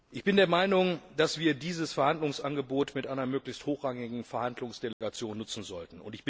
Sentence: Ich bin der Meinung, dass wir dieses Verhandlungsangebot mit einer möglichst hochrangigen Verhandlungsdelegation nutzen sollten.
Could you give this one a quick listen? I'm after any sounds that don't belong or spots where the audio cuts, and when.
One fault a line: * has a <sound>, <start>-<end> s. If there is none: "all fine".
* has a dropout, 4.9-5.0 s